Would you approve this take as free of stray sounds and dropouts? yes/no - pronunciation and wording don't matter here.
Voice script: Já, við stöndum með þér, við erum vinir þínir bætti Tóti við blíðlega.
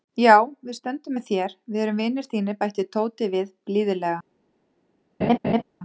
no